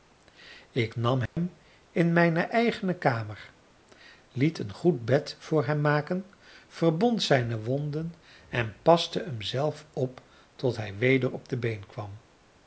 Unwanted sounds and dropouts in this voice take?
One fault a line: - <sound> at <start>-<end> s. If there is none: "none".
- dropout at 1.3-1.4 s